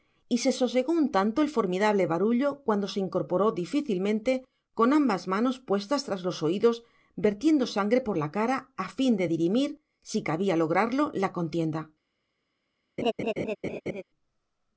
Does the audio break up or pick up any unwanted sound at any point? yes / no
yes